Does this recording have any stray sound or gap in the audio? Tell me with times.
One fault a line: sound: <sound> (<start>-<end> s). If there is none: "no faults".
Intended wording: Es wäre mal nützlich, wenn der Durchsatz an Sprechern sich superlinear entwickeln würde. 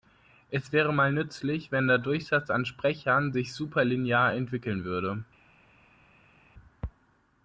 no faults